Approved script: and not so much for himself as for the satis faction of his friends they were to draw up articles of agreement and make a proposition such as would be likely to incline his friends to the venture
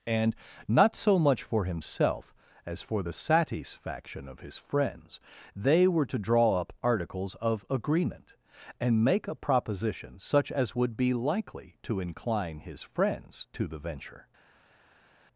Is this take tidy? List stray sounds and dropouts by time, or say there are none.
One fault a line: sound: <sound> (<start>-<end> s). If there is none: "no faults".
no faults